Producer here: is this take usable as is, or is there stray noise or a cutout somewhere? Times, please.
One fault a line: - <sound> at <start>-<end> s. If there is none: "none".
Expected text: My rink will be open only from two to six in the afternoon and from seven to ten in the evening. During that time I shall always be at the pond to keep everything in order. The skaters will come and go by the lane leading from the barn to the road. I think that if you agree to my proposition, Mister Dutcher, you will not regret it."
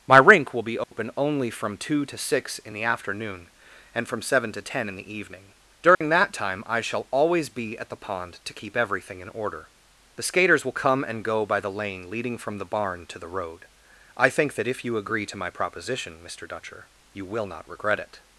- dropout at 0.8-0.9 s
- dropout at 5.9-6.0 s